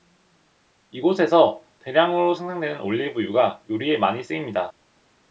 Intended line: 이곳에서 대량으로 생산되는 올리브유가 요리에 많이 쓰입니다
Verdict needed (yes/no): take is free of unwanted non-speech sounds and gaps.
yes